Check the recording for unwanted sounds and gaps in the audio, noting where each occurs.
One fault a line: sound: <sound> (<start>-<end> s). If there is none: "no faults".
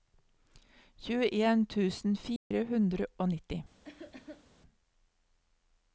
sound: dropout (2.4-2.5 s)
sound: cough (3.8-4.5 s)